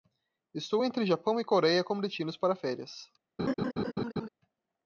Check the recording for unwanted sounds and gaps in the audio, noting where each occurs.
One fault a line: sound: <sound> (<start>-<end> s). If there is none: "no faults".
sound: laugh (3.4-4.3 s)